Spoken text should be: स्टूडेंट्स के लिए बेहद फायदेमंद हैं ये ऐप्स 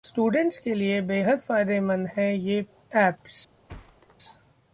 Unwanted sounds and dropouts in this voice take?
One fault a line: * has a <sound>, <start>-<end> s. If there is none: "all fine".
* has a thud, 3.7-4.2 s